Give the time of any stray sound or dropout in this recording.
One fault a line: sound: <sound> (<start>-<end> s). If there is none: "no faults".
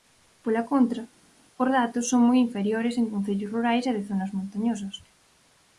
no faults